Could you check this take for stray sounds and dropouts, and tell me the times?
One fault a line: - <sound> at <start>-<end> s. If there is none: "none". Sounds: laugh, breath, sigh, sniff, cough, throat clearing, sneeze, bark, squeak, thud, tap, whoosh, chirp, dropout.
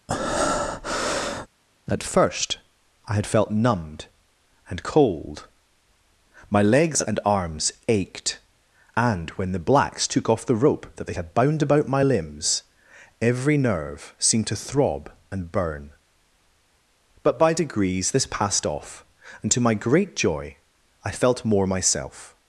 - breath at 0.1-1.5 s